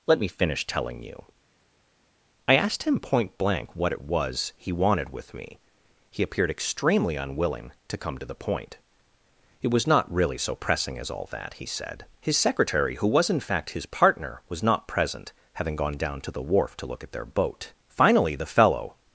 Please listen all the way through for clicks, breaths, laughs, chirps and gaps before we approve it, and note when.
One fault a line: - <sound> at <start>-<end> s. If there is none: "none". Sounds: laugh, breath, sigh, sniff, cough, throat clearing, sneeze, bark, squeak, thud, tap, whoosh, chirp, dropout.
none